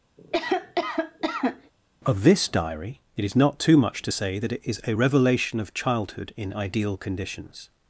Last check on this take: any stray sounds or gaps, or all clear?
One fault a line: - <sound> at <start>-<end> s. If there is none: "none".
- cough at 0.2-1.7 s